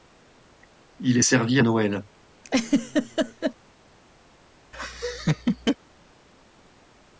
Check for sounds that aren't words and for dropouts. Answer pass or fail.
fail